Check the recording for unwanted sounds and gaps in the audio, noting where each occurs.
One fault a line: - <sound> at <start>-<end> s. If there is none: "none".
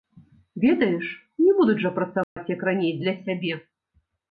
- dropout at 2.2-2.4 s